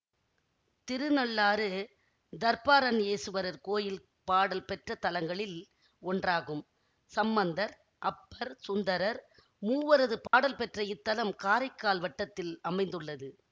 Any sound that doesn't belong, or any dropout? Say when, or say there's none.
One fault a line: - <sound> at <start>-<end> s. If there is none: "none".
- dropout at 10.3-10.3 s